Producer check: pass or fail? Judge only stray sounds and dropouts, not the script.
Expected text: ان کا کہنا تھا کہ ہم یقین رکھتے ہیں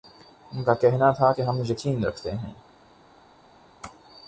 pass